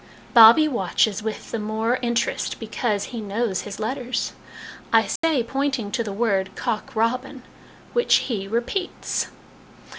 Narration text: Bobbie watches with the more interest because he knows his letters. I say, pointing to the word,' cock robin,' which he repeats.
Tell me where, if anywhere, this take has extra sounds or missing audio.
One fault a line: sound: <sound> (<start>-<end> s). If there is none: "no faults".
sound: dropout (5.2-5.2 s)